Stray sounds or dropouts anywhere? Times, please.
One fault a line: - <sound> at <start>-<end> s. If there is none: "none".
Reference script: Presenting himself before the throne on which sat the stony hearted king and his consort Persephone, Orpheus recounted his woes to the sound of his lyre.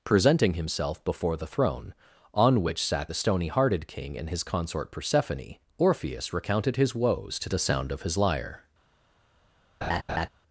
- laugh at 9.8-10.3 s